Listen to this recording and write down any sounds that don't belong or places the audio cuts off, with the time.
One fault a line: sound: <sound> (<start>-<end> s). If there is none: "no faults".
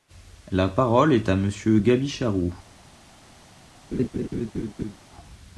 sound: laugh (3.9-5.0 s)